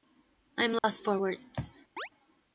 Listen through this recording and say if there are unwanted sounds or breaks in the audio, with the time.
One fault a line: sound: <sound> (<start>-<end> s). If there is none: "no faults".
sound: dropout (0.8-0.8 s)
sound: chirp (2.0-2.1 s)